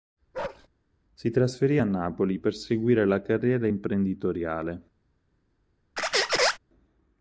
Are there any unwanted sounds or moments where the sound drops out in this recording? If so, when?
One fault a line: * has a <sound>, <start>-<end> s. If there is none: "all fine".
* has a bark, 0.3-0.7 s
* has a squeak, 6.0-6.6 s